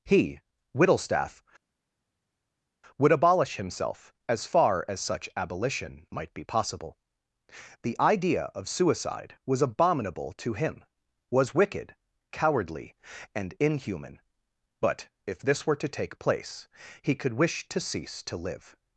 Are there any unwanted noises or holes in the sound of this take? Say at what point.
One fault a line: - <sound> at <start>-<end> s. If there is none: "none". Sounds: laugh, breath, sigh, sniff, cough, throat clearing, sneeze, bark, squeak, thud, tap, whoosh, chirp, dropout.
none